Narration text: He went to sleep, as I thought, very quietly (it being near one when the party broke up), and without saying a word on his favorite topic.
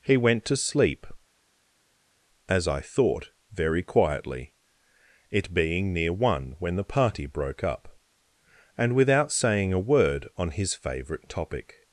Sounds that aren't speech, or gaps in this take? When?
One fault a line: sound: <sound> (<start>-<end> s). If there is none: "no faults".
no faults